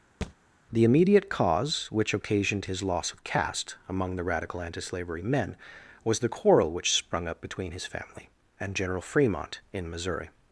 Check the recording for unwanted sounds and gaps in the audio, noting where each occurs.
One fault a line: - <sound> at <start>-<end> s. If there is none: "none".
- thud at 0.2-0.3 s